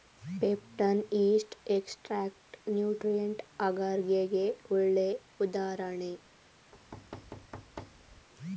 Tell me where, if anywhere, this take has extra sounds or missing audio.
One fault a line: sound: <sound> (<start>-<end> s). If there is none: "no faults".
sound: thud (6.7-8.3 s)